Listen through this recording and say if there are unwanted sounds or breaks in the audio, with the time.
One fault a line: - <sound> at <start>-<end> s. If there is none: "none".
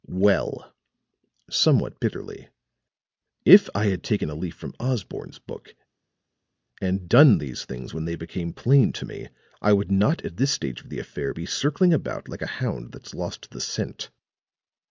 none